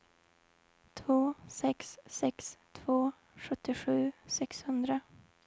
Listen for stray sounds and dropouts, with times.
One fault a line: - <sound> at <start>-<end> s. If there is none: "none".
none